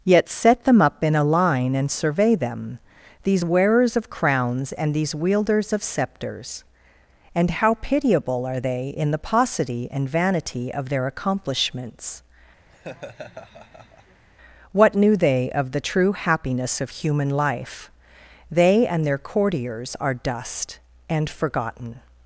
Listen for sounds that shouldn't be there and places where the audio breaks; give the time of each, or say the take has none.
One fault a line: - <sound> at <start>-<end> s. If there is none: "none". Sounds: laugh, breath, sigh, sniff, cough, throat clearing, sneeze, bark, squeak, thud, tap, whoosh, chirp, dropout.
- laugh at 12.7-14.2 s